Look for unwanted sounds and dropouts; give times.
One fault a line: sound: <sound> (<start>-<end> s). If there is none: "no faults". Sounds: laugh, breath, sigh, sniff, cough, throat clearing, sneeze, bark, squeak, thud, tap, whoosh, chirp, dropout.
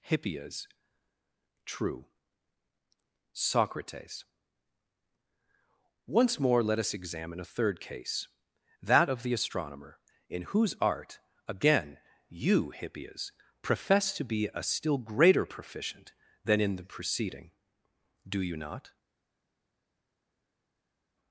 no faults